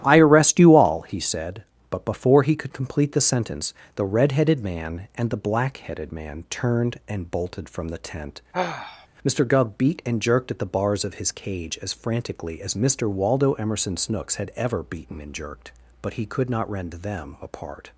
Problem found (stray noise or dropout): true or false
true